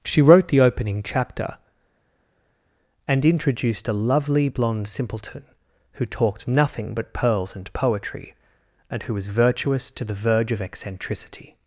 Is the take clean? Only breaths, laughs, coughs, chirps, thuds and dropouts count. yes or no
yes